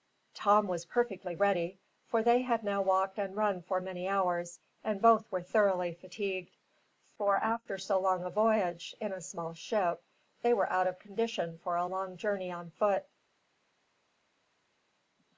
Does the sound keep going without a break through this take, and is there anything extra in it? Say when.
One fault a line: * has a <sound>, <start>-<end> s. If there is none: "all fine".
all fine